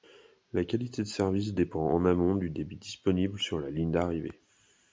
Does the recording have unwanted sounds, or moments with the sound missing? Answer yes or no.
no